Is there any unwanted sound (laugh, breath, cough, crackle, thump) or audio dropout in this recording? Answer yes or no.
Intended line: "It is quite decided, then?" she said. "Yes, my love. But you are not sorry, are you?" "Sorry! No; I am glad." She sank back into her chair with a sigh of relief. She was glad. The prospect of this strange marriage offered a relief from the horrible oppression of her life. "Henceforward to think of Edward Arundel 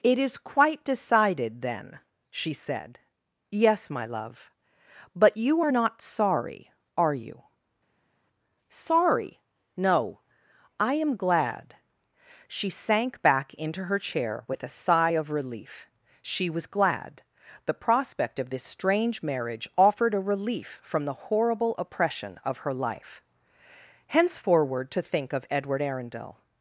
no